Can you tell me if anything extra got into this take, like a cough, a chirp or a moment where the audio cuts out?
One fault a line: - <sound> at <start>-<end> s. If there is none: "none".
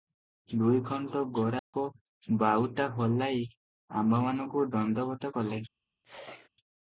- dropout at 1.6-1.7 s
- sneeze at 6.0-6.5 s